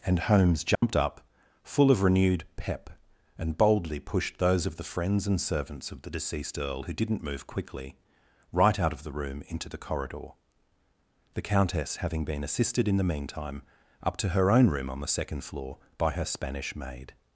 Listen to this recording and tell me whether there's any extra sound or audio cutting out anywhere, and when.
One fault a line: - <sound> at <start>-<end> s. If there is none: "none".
- dropout at 0.7-0.8 s